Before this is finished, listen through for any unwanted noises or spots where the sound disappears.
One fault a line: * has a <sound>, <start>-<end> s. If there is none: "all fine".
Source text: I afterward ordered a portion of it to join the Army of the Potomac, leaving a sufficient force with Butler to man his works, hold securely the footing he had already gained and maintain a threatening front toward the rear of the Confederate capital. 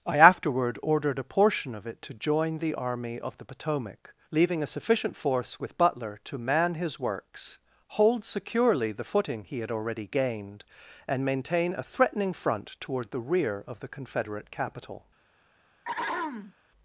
* has a throat clearing, 15.8-16.5 s